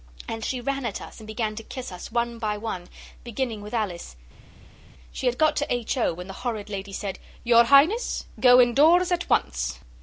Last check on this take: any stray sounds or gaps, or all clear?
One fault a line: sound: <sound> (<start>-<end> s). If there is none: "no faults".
no faults